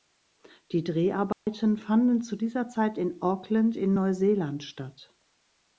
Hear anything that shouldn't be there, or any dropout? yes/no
yes